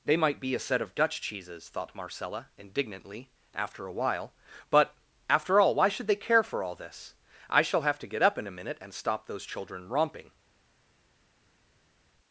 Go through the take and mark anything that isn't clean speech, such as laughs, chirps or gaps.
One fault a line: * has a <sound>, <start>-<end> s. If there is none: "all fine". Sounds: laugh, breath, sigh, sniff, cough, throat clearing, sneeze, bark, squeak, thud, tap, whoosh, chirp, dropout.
all fine